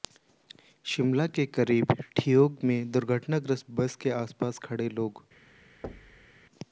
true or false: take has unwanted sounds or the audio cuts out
true